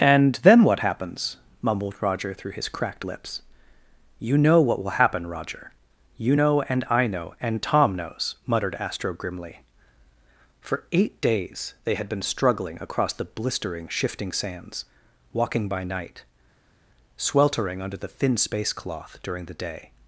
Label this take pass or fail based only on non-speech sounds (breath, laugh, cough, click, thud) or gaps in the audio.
pass